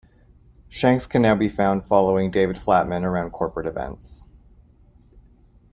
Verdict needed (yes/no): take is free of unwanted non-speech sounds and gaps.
yes